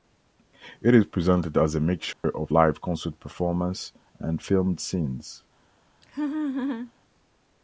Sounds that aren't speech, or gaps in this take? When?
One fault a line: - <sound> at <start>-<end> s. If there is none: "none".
- dropout at 2.1-2.2 s
- laugh at 6.0-6.9 s